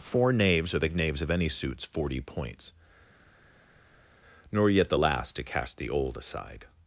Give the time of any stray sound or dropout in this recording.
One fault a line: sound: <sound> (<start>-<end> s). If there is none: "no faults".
no faults